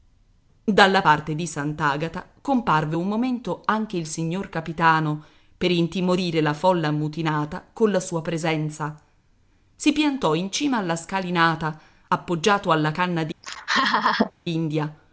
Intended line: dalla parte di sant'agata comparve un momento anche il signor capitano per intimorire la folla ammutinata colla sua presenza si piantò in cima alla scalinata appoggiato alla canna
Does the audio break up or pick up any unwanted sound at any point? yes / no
yes